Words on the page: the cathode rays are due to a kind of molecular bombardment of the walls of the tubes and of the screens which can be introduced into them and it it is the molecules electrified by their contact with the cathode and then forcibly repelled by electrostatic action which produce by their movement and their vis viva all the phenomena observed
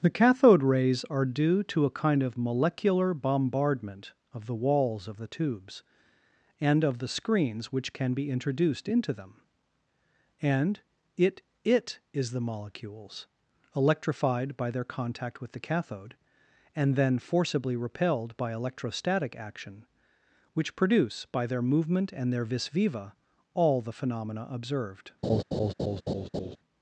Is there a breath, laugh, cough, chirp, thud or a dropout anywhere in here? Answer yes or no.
yes